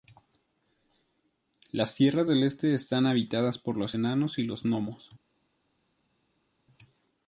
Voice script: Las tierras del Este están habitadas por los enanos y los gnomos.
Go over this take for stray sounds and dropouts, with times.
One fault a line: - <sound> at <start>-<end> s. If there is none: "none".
none